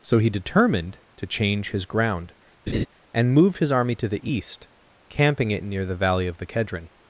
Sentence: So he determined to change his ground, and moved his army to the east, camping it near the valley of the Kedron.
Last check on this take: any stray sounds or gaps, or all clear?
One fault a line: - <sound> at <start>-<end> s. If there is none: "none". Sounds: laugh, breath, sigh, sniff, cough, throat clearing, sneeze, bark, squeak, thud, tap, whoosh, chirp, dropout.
- laugh at 2.7-2.9 s